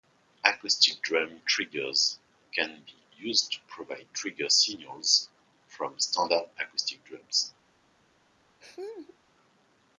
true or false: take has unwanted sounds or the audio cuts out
true